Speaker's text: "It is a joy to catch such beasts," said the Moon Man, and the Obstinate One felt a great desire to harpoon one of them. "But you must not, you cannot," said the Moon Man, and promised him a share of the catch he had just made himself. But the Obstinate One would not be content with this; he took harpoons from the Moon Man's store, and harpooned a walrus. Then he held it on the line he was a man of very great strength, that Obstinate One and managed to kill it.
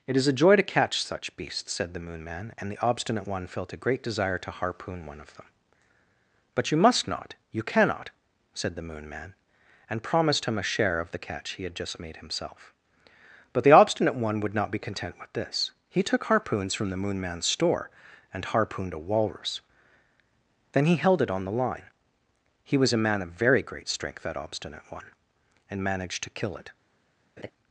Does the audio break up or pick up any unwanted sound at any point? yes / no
yes